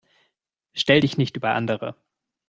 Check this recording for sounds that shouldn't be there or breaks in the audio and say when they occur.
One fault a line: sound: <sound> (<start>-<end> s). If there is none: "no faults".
no faults